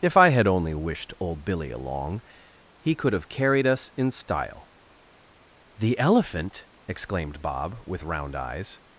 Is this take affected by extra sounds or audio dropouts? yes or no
no